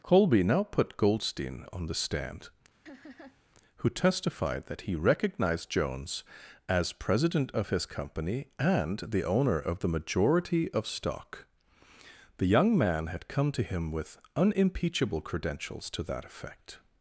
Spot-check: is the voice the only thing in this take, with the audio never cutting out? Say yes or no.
no